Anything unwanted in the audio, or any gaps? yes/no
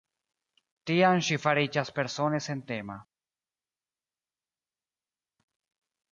no